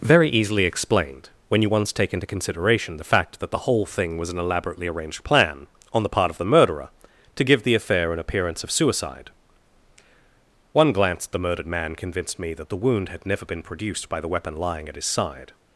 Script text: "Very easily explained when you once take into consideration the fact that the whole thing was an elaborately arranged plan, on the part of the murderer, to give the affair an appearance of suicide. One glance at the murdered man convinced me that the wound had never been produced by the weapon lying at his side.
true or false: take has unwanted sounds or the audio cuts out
false